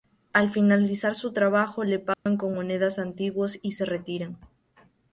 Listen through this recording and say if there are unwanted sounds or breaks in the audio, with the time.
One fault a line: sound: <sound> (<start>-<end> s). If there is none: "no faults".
sound: dropout (2.1-2.3 s)